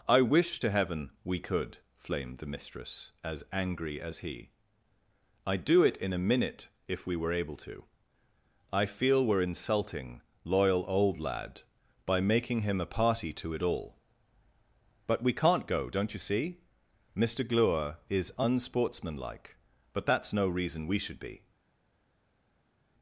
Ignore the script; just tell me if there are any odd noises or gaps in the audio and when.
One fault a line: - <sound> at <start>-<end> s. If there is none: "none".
none